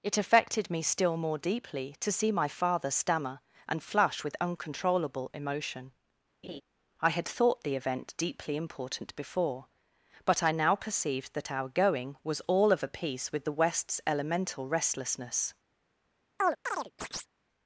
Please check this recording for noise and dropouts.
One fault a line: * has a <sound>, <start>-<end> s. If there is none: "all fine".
* has a laugh, 6.4-6.6 s
* has a chirp, 16.4-17.3 s